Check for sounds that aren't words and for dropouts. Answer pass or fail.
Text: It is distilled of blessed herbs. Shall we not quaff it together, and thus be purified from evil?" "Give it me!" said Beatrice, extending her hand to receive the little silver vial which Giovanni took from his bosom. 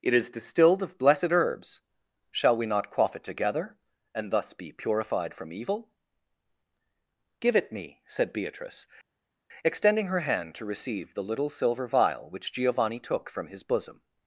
pass